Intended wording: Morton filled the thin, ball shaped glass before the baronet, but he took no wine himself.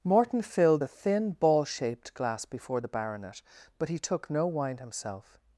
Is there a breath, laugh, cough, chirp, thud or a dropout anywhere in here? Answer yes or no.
no